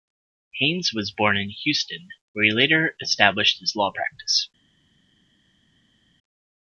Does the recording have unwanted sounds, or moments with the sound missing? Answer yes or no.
no